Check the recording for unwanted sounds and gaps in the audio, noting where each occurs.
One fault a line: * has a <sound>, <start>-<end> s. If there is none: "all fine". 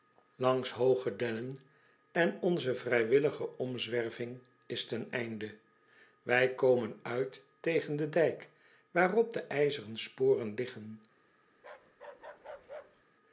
* has a bark, 11.6-13.0 s